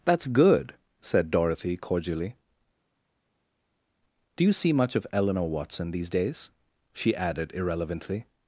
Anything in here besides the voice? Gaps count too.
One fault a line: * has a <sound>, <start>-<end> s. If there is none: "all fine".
all fine